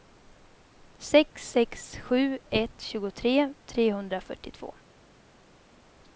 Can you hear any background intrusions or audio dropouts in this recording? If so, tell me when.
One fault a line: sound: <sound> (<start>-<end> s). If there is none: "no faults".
no faults